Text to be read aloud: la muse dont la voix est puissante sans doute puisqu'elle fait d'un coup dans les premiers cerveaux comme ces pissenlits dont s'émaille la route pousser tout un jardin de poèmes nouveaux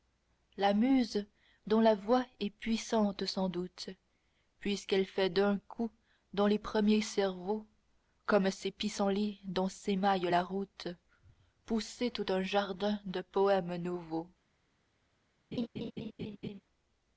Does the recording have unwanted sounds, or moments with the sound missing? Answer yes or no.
yes